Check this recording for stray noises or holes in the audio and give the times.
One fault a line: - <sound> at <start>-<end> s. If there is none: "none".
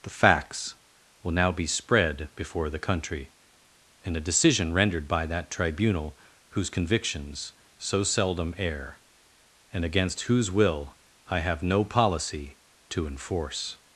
none